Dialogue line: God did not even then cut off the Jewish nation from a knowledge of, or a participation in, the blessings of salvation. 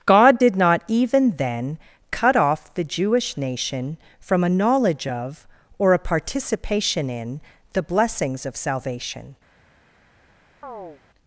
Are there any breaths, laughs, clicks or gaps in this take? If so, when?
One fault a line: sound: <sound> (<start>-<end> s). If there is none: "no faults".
sound: chirp (10.6-11.0 s)